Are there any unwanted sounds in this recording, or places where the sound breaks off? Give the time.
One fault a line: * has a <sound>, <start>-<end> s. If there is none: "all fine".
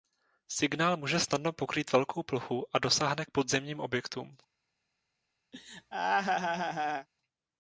* has a laugh, 5.5-7.1 s